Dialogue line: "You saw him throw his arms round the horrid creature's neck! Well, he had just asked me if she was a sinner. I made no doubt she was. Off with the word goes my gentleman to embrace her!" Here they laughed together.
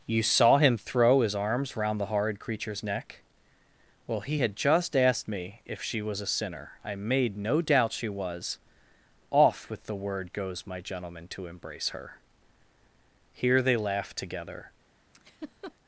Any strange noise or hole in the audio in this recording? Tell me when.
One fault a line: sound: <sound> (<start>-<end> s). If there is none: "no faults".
sound: laugh (15.1-15.7 s)